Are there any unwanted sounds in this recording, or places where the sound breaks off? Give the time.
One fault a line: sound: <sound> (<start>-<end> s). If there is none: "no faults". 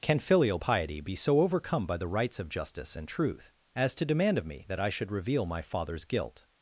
no faults